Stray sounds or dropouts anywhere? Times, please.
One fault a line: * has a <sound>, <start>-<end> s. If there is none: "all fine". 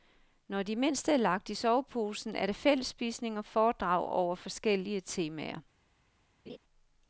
* has a laugh, 6.5-6.6 s